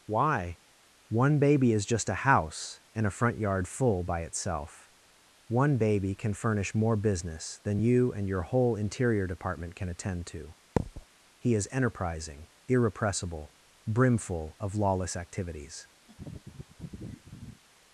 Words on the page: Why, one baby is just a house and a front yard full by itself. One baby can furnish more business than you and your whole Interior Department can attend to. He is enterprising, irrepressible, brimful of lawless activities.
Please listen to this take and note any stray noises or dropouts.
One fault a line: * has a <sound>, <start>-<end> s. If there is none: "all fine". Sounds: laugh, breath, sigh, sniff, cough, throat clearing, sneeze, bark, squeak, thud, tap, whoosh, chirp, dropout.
* has a thud, 10.8-11.1 s
* has a laugh, 16.1-17.6 s